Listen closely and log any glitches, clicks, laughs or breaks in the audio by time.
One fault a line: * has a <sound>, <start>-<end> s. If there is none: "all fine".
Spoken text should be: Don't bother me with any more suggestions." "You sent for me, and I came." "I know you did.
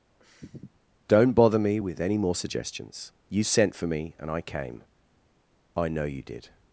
* has a sniff, 0.2-0.8 s